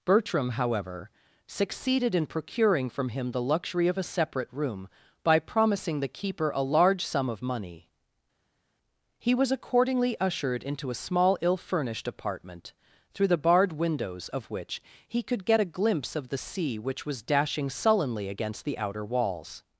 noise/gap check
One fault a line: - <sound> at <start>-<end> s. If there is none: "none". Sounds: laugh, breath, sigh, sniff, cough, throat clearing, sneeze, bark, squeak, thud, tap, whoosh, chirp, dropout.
none